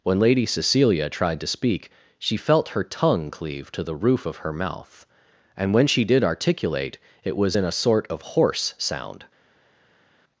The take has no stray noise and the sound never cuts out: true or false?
true